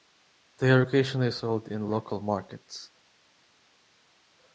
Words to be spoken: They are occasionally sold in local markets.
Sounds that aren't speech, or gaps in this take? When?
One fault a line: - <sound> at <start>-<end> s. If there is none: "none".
none